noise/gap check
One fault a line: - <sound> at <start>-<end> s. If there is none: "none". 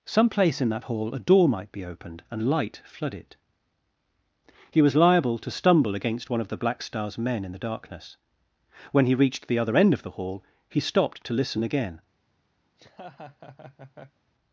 - laugh at 12.7-14.2 s